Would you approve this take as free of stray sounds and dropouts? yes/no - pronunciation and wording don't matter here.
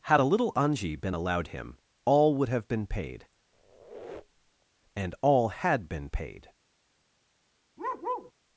no